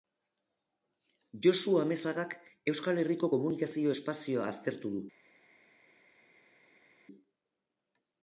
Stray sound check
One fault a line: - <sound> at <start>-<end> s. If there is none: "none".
none